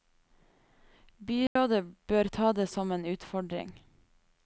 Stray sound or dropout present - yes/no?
yes